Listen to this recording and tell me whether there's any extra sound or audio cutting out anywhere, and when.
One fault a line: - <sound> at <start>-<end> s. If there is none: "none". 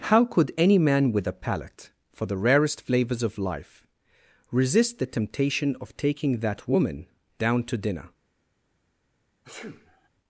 - sneeze at 9.4-10.1 s